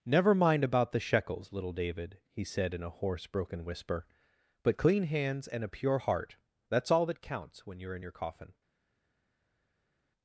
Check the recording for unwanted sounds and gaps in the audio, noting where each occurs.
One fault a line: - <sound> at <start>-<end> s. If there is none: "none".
none